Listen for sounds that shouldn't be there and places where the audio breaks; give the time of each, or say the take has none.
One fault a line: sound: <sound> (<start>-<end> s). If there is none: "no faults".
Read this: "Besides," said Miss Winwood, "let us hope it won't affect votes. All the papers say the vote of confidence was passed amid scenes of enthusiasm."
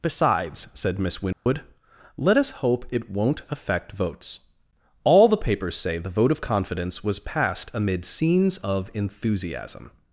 sound: dropout (1.3-1.5 s)